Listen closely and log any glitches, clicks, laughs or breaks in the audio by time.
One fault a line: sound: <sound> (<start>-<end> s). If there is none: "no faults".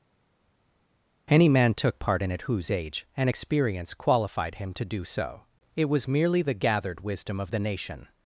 no faults